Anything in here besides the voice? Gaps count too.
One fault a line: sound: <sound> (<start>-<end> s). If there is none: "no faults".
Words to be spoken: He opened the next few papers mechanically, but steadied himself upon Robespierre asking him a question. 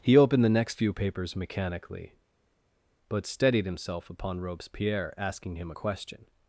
no faults